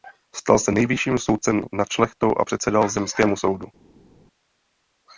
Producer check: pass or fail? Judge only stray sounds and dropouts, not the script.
pass